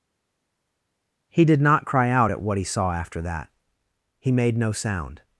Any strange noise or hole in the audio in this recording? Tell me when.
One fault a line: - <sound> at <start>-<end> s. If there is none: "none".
none